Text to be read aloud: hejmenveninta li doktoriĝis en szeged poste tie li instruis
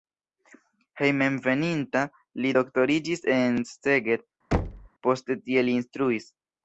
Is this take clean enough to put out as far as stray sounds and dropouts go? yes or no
no